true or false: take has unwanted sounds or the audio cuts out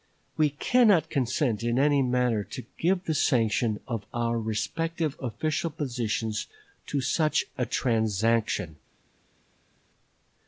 false